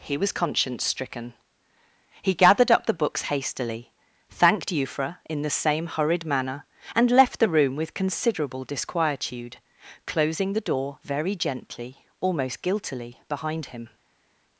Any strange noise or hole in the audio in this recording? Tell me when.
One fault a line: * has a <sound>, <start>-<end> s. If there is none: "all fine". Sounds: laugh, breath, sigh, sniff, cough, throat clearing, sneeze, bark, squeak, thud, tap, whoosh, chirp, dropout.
all fine